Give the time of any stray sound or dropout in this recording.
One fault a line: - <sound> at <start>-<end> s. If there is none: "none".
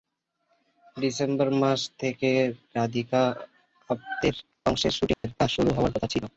- dropout at 5.1-5.2 s